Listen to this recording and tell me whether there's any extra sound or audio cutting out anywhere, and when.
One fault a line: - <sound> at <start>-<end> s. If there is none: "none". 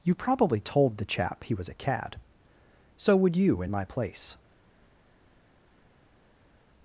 none